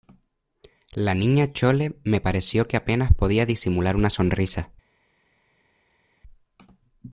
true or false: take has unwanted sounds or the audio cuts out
false